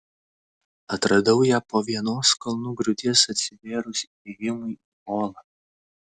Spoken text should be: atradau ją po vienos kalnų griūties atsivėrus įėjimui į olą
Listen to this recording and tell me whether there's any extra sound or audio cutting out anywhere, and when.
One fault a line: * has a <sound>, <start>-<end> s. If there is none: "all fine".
all fine